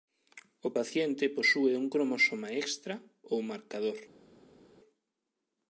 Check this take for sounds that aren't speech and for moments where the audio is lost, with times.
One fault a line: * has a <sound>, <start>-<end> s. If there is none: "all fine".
all fine